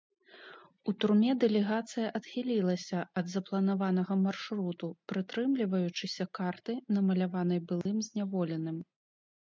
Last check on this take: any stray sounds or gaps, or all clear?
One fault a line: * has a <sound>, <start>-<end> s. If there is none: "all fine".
* has a dropout, 7.8-7.9 s